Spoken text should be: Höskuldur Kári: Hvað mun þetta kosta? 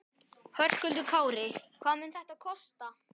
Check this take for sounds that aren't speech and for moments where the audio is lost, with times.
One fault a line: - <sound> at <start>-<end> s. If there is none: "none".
none